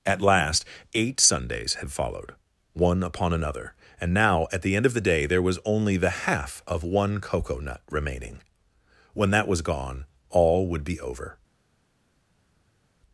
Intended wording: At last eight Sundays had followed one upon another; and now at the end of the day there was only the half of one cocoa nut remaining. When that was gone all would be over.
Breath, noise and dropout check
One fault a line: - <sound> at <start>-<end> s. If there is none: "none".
none